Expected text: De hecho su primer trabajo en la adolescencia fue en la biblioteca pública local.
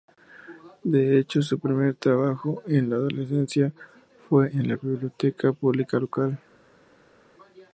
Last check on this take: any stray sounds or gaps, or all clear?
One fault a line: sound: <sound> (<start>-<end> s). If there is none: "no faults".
no faults